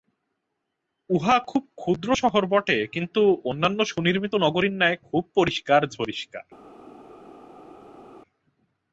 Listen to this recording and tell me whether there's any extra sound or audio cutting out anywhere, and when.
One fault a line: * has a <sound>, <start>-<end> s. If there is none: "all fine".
all fine